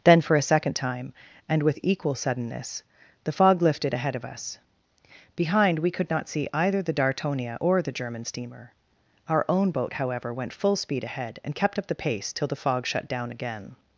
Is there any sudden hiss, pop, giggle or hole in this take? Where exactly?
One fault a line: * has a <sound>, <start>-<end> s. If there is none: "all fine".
all fine